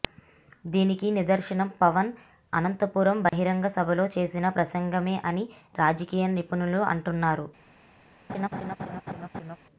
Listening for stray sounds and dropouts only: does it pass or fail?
fail